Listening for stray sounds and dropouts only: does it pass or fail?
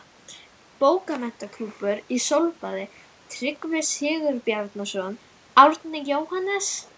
pass